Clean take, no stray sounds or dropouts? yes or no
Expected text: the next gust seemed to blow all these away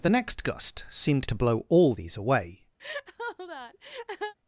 no